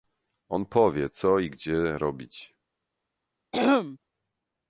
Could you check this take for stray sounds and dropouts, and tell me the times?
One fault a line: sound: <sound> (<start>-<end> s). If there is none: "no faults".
sound: throat clearing (3.5-4.0 s)